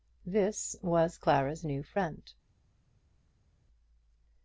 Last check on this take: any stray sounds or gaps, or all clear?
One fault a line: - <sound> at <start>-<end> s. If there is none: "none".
none